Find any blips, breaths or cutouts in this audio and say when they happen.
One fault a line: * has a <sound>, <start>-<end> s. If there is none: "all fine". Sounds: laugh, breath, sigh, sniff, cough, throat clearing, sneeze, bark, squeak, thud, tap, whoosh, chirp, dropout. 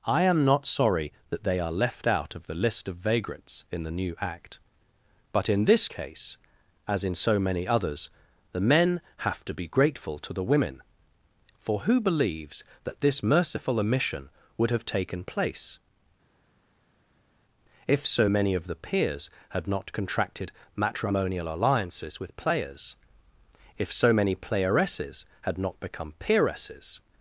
all fine